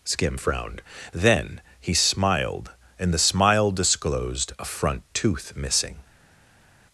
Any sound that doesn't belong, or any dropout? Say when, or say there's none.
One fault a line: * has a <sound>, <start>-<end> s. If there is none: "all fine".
all fine